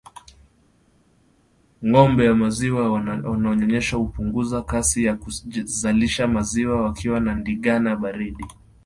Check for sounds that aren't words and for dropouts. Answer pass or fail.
pass